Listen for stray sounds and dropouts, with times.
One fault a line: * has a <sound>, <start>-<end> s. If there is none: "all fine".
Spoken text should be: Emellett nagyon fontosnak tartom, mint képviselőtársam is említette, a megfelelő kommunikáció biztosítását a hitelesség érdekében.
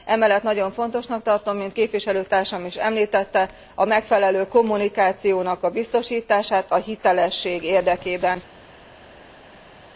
all fine